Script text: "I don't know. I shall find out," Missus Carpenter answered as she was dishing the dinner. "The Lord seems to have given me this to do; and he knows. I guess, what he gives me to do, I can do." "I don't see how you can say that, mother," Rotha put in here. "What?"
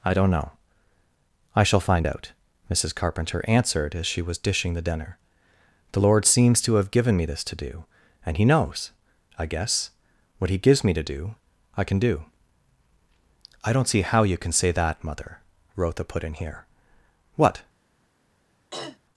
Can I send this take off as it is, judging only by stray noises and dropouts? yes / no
no